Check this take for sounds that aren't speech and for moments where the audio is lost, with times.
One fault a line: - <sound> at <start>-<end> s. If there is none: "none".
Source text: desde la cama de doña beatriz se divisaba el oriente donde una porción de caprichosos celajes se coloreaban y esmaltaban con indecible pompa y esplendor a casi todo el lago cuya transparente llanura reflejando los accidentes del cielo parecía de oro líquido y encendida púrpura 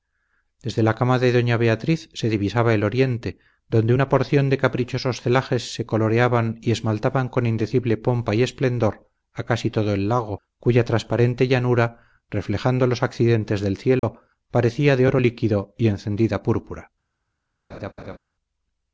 - dropout at 14.0-14.0 s
- laugh at 17.7-18.2 s